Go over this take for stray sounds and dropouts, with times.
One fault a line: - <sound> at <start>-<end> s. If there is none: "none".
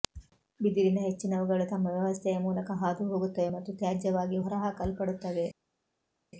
none